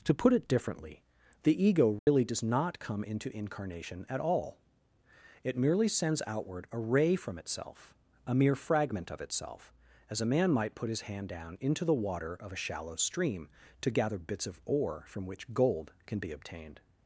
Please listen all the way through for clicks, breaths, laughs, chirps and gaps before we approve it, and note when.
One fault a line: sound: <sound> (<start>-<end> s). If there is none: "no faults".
sound: dropout (2.0-2.1 s)